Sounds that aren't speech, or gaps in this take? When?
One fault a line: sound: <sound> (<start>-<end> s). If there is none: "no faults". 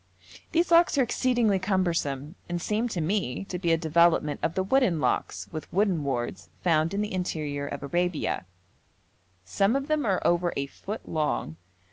no faults